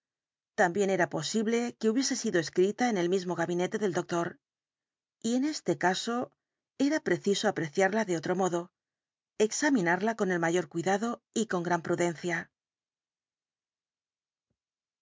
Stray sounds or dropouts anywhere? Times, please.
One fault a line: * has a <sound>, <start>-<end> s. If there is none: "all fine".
all fine